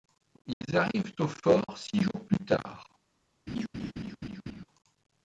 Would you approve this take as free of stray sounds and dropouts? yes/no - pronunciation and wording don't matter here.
no